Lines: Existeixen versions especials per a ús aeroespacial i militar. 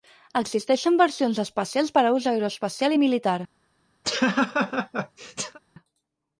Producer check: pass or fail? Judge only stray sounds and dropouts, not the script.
fail